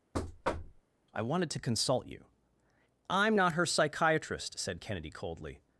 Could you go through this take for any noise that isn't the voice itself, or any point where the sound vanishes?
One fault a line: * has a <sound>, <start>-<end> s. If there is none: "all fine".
* has a thud, 0.1-0.8 s